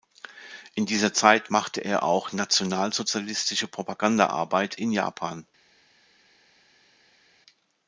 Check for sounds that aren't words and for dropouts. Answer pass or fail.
pass